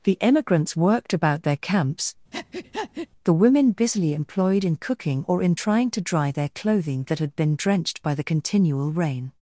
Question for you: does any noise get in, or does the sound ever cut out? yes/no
yes